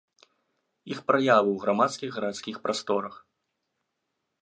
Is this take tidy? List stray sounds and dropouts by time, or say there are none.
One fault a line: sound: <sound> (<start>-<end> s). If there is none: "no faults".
no faults